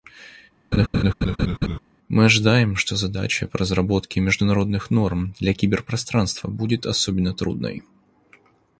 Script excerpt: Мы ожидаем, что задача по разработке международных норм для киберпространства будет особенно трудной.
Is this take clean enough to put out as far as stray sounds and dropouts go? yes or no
no